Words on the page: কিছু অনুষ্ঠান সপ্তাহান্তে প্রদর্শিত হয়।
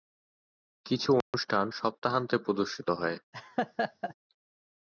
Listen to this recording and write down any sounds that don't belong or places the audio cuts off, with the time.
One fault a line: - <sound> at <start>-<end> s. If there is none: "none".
- dropout at 1.2-1.3 s
- laugh at 3.3-4.1 s